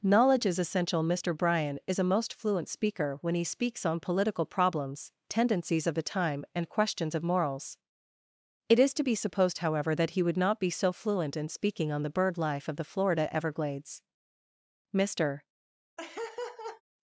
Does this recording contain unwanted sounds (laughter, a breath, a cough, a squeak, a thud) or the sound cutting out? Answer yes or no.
yes